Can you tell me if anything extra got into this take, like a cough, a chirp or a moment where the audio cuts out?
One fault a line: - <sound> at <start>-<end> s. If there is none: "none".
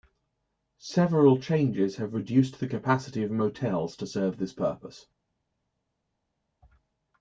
none